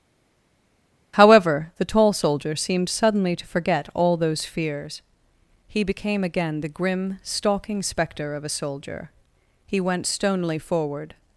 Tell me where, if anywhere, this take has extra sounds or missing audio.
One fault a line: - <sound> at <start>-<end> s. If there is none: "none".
none